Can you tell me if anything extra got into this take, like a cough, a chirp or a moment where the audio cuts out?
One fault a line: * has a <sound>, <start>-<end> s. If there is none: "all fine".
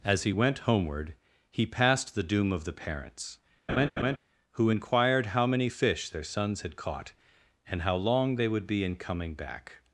* has a laugh, 3.7-4.2 s